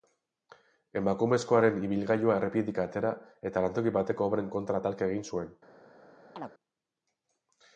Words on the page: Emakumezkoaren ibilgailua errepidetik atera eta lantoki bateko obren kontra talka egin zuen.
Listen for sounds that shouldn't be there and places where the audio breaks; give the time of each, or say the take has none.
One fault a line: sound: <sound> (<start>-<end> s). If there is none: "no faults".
sound: chirp (6.4-6.5 s)